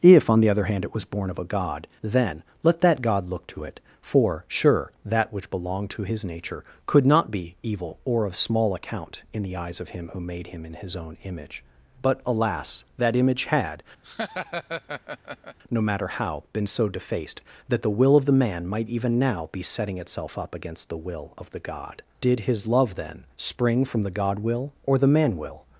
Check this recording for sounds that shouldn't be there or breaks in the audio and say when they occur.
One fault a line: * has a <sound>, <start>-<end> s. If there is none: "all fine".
* has a laugh, 14.0-15.6 s